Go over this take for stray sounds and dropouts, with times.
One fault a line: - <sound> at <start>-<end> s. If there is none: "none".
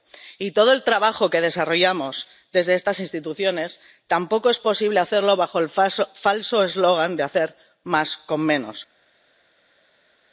none